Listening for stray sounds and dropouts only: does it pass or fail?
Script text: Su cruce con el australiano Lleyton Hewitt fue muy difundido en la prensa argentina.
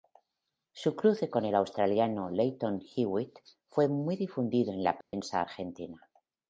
fail